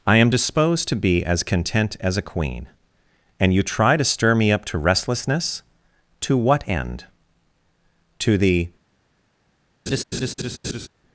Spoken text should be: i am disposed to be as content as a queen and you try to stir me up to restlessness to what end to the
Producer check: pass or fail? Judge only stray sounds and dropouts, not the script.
fail